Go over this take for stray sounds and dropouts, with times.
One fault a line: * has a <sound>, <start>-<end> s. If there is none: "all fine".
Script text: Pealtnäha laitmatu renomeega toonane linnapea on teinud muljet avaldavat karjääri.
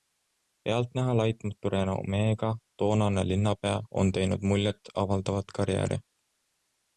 all fine